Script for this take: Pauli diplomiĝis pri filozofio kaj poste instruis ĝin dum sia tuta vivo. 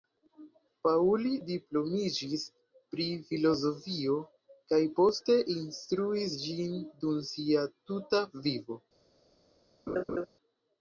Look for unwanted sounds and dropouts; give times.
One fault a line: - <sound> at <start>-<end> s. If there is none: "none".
- laugh at 9.9-10.3 s